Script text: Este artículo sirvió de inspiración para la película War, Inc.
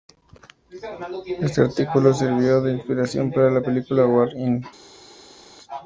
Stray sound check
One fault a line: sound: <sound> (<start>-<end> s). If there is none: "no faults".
no faults